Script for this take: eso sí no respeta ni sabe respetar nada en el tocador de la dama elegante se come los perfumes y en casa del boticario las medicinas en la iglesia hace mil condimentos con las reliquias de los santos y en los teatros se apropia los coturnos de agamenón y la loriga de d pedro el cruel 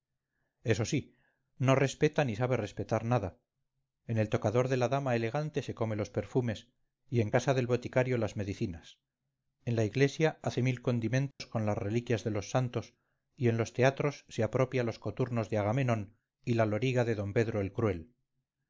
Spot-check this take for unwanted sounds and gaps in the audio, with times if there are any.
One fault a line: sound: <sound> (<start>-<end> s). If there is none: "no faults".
sound: dropout (11.3-11.4 s)